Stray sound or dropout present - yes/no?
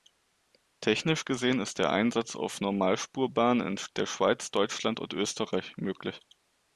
no